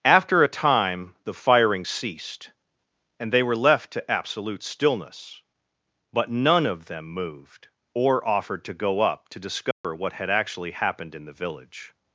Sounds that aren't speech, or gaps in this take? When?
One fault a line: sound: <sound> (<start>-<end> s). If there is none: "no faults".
sound: dropout (9.7-9.8 s)